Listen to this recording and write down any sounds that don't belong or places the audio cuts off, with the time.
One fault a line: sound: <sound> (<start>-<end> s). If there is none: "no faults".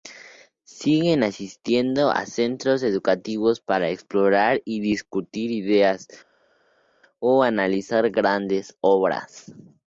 no faults